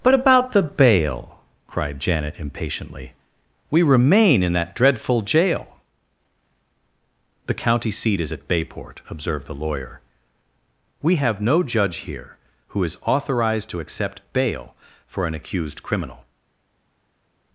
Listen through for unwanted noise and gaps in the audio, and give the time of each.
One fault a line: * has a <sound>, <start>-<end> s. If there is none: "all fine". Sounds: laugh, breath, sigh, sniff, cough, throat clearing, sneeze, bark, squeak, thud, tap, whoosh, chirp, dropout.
all fine